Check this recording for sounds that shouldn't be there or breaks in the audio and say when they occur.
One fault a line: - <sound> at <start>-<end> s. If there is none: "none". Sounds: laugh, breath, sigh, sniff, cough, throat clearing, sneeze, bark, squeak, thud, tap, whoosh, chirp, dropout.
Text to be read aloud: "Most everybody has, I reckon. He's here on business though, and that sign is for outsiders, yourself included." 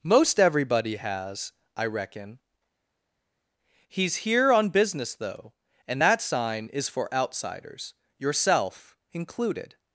none